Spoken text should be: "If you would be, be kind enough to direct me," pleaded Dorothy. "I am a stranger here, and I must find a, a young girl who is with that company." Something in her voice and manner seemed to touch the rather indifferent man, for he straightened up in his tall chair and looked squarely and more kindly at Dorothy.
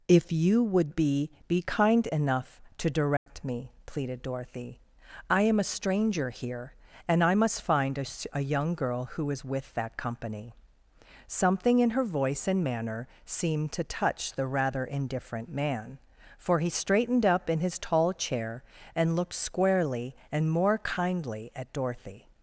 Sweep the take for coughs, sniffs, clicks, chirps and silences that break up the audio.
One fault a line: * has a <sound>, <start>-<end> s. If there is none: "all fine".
* has a dropout, 3.2-3.3 s